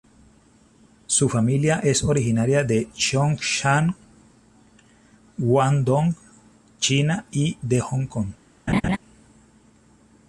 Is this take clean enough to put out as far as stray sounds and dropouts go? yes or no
no